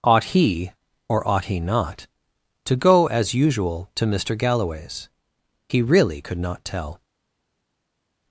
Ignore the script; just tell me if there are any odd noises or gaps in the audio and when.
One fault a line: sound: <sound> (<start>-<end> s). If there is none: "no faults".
no faults